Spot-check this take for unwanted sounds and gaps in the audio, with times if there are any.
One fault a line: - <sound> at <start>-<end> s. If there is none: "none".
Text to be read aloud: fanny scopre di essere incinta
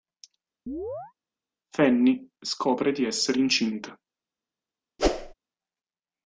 - chirp at 0.7-1.1 s
- whoosh at 5.0-5.3 s